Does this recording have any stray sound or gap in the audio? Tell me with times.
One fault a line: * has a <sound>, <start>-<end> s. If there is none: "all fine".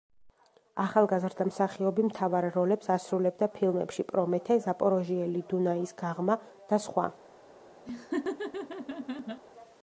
* has a laugh, 7.9-9.4 s